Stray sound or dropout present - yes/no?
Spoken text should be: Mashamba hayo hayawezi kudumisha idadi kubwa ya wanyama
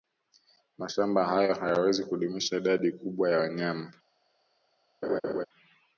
yes